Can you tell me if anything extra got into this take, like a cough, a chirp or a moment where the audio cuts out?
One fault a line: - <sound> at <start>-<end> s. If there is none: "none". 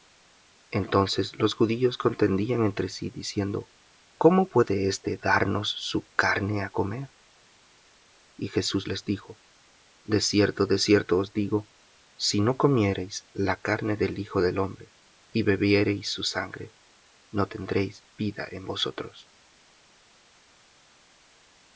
none